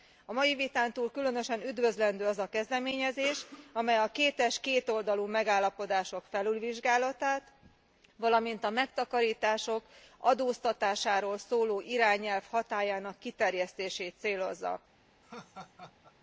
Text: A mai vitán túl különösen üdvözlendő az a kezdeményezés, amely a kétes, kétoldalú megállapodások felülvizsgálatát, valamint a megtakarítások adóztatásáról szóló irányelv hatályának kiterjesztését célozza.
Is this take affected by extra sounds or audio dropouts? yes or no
yes